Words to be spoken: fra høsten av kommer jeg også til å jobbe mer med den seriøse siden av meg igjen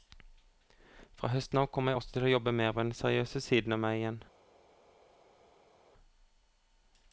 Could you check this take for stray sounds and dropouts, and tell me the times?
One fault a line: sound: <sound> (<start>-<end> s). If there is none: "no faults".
no faults